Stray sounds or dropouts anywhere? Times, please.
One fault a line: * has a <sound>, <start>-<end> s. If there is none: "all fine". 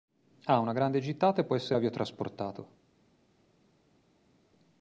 all fine